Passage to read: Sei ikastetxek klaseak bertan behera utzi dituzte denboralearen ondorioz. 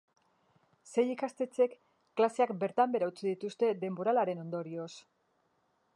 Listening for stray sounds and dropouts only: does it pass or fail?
pass